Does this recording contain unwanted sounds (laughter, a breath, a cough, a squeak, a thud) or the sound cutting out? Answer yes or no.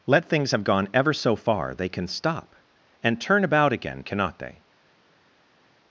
no